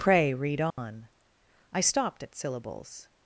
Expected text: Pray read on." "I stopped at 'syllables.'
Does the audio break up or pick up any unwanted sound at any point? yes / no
yes